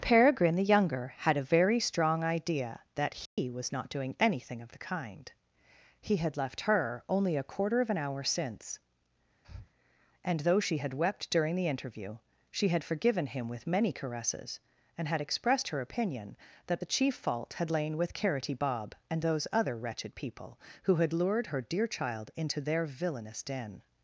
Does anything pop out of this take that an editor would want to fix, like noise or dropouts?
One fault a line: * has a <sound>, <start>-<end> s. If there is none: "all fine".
* has a dropout, 3.3-3.4 s
* has a breath, 9.4-9.7 s